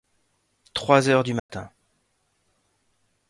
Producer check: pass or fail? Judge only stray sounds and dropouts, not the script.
fail